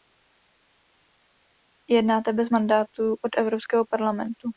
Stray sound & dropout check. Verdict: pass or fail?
pass